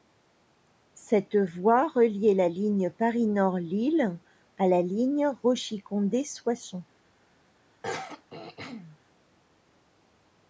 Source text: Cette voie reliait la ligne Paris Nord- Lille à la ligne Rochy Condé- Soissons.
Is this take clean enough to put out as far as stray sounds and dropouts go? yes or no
no